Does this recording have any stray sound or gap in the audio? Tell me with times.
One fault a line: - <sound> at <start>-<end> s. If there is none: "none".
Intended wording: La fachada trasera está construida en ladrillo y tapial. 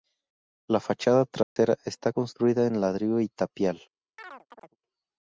- dropout at 1.4-1.6 s
- chirp at 4.2-4.8 s